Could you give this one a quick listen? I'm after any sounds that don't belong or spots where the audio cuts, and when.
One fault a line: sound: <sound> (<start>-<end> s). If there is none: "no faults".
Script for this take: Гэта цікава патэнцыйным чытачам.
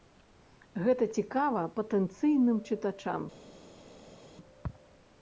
no faults